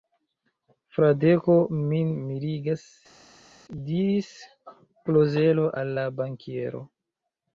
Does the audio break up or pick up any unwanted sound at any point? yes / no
no